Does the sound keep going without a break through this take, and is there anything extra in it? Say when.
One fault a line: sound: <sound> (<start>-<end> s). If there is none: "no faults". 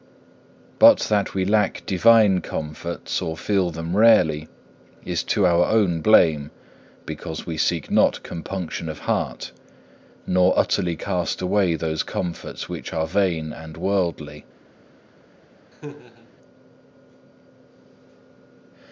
sound: laugh (15.7-16.3 s)